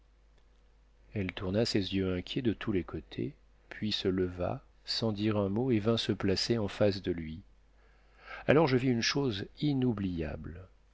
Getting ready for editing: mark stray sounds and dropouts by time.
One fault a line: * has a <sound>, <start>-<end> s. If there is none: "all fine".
all fine